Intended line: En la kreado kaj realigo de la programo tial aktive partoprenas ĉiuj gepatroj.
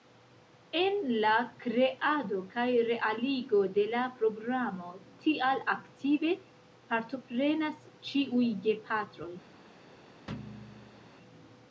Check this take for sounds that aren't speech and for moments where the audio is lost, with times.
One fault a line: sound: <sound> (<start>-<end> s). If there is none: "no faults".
sound: thud (10.3-11.1 s)